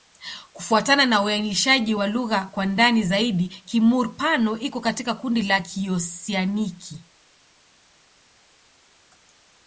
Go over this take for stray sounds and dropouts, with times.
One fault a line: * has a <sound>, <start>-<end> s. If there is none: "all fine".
all fine